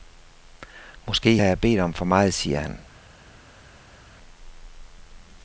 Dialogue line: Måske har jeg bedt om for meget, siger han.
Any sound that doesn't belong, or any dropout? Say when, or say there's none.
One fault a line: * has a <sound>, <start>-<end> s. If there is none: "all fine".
all fine